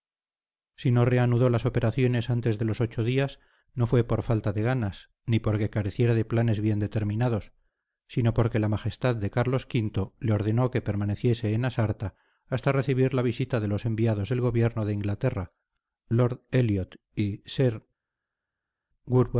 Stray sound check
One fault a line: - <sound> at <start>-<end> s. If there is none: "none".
none